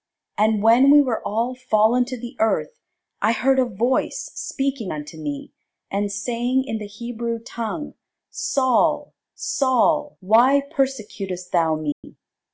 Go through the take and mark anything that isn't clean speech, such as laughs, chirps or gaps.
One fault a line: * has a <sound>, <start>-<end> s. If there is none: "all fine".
* has a dropout, 11.9-12.0 s